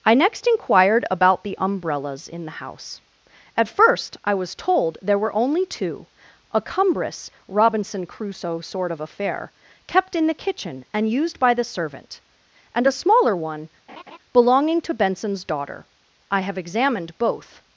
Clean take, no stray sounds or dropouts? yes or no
no